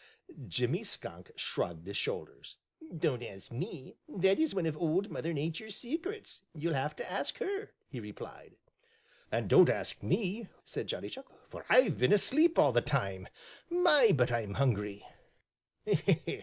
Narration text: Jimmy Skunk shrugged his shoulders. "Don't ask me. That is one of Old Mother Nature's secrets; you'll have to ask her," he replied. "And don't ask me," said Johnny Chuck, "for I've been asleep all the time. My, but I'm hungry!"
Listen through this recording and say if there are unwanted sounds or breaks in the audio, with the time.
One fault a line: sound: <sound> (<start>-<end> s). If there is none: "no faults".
no faults